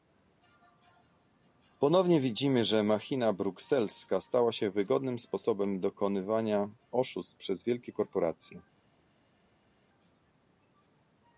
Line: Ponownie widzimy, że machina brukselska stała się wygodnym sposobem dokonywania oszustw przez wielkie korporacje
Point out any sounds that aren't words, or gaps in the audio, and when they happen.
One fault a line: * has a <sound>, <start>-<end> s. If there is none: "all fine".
all fine